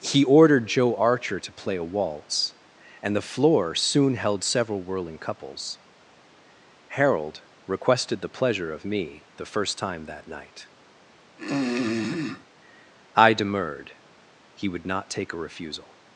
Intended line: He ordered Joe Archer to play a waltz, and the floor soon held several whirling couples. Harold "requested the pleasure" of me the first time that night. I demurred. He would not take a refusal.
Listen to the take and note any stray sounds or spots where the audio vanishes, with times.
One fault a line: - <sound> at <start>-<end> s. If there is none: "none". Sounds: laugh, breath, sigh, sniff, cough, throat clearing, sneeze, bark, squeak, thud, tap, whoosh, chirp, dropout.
- throat clearing at 11.4-12.5 s